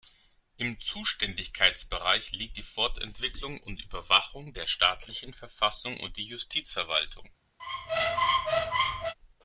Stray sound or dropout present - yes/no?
yes